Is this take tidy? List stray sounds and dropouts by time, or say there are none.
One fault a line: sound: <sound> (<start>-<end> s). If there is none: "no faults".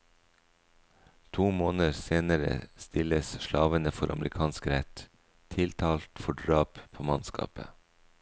no faults